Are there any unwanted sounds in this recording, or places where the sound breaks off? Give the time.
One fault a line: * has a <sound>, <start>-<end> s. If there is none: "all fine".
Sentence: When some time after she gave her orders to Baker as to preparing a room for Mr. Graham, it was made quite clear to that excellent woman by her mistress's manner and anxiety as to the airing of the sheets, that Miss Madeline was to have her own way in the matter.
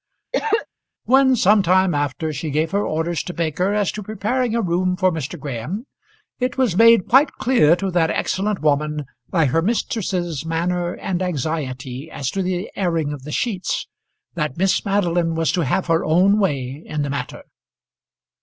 * has a cough, 0.3-0.7 s